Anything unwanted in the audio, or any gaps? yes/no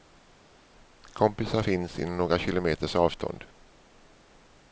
no